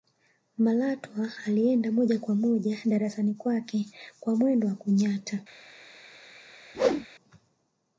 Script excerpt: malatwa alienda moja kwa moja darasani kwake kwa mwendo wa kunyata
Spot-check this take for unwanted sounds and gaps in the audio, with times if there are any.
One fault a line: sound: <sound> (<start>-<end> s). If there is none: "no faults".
sound: whoosh (6.7-7.1 s)